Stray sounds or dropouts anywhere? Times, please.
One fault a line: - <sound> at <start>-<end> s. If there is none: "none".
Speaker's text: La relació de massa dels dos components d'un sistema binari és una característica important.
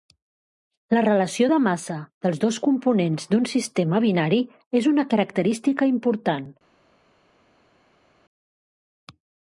none